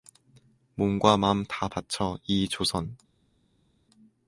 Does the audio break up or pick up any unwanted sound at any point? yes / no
no